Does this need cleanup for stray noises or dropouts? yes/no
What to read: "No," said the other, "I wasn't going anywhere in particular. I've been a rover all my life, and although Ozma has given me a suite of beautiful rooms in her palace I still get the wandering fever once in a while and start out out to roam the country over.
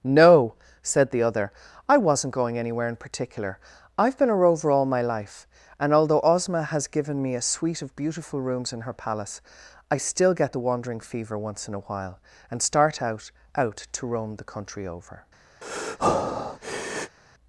yes